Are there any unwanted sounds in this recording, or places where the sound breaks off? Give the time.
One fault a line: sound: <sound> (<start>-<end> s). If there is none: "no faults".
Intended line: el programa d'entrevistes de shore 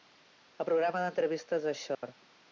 sound: dropout (1.9-2.0 s)